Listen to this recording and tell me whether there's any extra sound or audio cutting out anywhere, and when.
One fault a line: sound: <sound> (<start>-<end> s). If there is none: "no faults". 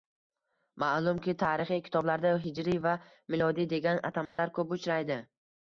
sound: dropout (4.2-4.4 s)